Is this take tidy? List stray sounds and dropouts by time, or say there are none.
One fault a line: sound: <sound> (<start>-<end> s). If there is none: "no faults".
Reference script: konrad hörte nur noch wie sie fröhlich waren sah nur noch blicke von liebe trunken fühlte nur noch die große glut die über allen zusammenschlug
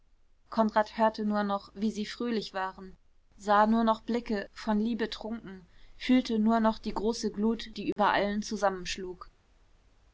sound: dropout (7.9-8.0 s)